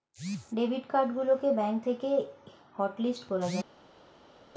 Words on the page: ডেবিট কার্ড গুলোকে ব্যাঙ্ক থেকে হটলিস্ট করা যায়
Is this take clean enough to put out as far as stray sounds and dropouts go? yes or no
yes